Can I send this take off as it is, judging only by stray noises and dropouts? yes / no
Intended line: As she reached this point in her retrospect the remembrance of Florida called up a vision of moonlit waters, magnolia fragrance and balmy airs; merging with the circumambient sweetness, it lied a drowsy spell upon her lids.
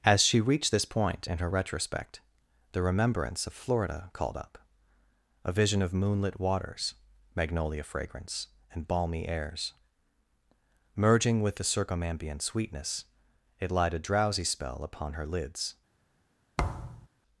no